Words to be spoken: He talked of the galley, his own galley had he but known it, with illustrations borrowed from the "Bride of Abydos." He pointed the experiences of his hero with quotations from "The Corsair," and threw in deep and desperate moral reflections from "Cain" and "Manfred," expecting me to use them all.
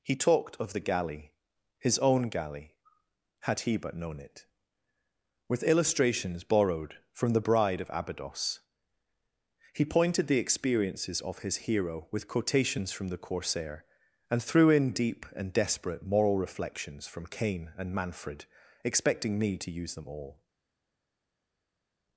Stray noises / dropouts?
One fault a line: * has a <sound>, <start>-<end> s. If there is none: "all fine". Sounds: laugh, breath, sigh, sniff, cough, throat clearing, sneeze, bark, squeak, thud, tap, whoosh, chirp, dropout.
all fine